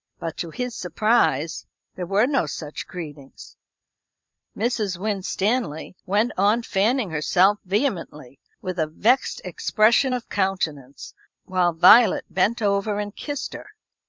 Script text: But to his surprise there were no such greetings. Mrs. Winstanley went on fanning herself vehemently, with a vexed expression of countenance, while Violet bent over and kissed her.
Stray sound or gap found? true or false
false